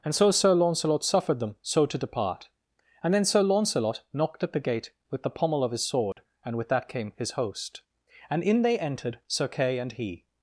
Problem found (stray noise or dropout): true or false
true